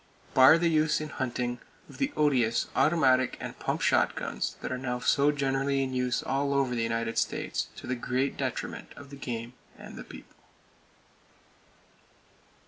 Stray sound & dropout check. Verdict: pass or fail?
pass